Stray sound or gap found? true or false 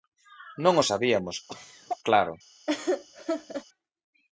true